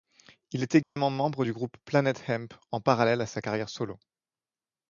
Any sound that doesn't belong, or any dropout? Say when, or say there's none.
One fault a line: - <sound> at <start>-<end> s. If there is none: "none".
- dropout at 0.8-1.0 s